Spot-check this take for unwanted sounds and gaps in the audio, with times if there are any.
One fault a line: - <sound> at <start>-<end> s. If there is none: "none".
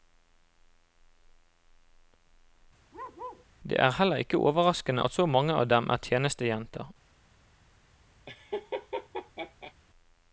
- bark at 2.9-3.5 s
- laugh at 8.3-9.7 s